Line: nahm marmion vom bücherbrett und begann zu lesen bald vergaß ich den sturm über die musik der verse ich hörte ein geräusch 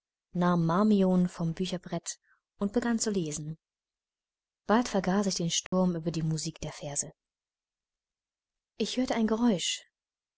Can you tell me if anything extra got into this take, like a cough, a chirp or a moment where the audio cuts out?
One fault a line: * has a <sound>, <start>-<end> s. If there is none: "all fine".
* has a dropout, 5.7-5.7 s